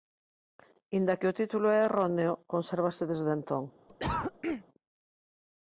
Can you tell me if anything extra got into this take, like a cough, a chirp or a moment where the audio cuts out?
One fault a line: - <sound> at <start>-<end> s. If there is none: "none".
- cough at 3.9-4.6 s